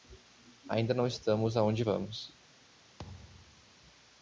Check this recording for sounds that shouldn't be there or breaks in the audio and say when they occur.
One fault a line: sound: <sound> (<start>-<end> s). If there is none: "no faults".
sound: thud (3.0-3.8 s)